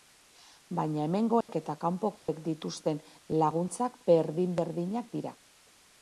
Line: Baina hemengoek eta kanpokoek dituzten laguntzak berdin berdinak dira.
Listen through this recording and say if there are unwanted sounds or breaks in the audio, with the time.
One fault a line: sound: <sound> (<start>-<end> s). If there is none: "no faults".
sound: dropout (1.4-1.5 s)
sound: dropout (2.2-2.3 s)